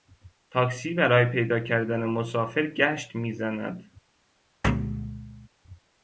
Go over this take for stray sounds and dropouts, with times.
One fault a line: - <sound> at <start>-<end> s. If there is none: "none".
- thud at 4.6-5.5 s